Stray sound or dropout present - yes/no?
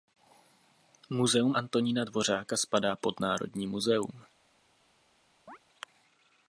yes